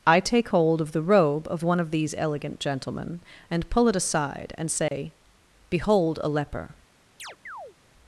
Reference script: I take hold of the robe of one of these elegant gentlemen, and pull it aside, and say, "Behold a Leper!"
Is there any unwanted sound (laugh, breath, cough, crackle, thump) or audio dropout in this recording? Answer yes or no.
yes